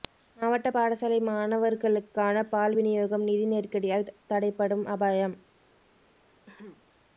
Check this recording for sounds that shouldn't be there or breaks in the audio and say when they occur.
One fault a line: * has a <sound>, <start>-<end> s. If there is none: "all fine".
* has a throat clearing, 6.5-6.8 s